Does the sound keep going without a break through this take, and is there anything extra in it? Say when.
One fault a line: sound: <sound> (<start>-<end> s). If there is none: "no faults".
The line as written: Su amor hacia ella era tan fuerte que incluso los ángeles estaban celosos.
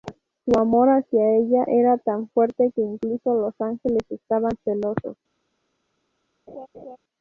sound: laugh (6.5-7.0 s)